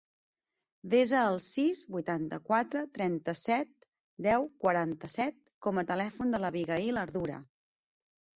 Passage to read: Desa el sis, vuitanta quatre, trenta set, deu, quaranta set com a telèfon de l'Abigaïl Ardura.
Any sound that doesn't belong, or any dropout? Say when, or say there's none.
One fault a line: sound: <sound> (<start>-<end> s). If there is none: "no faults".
no faults